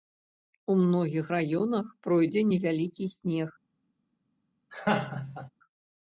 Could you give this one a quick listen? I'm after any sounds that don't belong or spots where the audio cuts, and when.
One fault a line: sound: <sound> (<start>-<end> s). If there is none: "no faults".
sound: laugh (4.7-5.5 s)